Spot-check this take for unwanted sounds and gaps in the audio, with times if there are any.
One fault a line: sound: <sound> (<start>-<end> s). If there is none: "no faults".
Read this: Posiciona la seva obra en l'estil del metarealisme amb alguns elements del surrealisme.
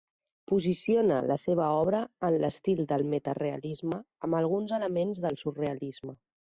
no faults